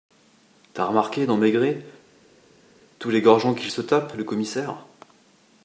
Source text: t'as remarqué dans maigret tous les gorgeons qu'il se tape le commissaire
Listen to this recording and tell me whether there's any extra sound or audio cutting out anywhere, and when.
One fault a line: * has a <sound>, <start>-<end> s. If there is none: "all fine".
all fine